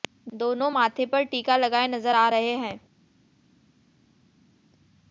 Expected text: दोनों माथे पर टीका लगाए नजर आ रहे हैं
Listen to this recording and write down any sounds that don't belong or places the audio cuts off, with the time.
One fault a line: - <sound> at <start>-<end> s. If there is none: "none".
none